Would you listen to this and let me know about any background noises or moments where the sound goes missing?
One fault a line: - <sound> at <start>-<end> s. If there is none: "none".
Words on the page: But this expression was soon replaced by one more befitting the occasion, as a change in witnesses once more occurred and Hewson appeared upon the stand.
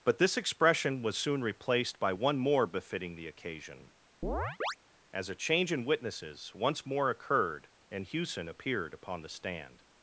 - chirp at 4.2-4.8 s